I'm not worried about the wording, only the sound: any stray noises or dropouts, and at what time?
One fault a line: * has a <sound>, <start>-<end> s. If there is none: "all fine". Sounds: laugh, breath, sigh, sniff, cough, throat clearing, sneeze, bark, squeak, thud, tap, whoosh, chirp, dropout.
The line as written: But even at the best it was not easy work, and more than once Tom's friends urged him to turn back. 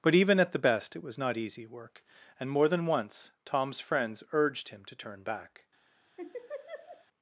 * has a laugh, 6.2-7.1 s